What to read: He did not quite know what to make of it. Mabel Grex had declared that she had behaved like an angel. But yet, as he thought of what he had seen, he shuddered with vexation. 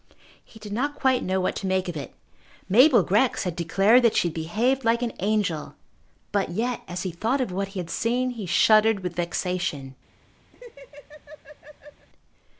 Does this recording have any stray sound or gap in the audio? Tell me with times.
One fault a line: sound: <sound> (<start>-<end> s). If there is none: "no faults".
sound: laugh (10.5-12.1 s)